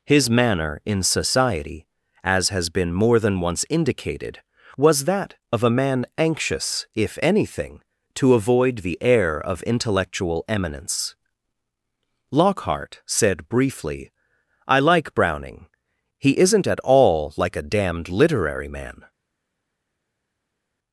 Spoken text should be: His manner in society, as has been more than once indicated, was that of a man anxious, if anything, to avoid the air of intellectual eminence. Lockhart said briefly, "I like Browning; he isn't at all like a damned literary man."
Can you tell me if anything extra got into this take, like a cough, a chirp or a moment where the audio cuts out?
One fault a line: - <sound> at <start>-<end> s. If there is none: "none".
none